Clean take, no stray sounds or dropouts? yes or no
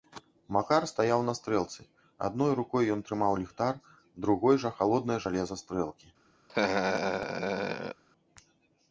no